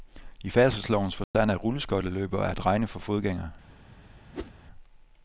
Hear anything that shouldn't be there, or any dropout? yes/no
yes